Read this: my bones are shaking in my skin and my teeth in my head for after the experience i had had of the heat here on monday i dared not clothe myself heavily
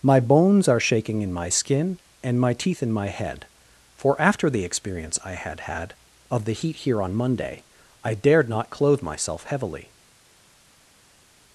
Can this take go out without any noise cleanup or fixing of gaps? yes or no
yes